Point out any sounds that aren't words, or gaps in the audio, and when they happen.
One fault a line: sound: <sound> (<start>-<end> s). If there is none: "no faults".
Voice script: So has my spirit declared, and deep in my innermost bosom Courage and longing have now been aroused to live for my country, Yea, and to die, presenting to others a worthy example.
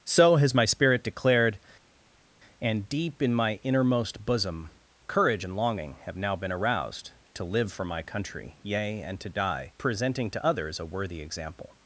no faults